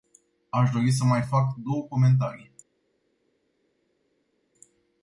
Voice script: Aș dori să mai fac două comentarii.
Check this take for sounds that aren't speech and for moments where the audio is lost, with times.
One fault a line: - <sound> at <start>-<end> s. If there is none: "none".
none